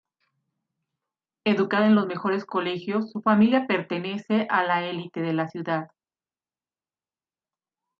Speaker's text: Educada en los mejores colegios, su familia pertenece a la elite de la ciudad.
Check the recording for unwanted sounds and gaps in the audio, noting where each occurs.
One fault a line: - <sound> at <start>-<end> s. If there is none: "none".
none